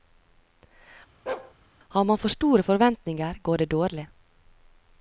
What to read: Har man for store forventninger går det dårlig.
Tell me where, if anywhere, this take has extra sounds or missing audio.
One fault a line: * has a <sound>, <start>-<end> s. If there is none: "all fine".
* has a bark, 1.3-1.5 s